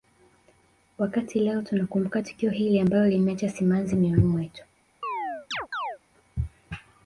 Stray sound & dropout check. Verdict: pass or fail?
fail